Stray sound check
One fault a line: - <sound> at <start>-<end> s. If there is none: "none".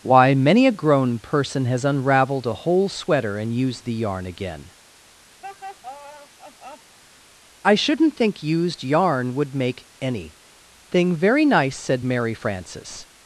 - laugh at 5.4-7.0 s